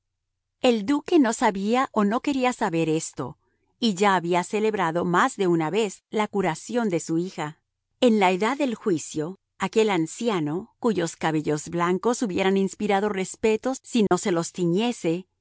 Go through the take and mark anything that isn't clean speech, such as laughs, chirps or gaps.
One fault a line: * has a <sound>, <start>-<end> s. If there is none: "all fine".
* has a dropout, 14.1-14.1 s